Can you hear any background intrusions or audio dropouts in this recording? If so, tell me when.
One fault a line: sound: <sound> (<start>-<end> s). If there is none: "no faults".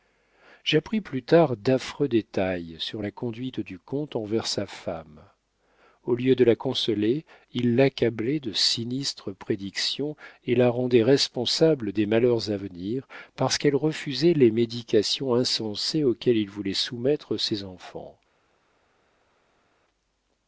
no faults